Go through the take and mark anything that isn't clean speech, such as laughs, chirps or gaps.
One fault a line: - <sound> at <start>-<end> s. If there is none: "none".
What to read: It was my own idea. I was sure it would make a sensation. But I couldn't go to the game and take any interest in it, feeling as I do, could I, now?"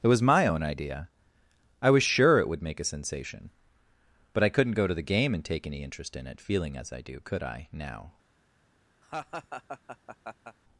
- laugh at 9.0-10.6 s